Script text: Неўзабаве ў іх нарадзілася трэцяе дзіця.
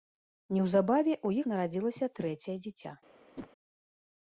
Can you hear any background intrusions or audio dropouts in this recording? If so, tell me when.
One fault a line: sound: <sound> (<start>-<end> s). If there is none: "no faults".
sound: whoosh (3.3-3.5 s)